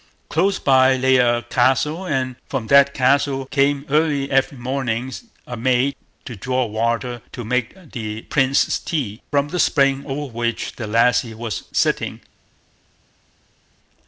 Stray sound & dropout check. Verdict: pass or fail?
pass